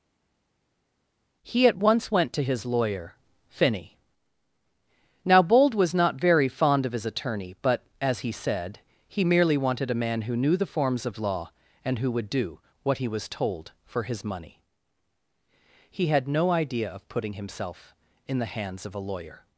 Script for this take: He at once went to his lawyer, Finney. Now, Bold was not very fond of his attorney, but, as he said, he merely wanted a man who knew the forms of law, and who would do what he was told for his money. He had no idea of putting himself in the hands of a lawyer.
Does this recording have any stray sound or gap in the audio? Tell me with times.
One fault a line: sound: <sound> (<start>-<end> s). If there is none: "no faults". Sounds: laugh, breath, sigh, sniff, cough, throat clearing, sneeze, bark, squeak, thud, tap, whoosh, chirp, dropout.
no faults